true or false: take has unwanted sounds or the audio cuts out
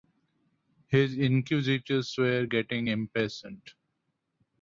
false